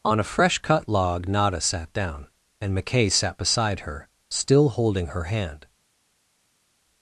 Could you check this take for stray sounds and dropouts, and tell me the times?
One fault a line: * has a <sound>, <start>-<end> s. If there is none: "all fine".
all fine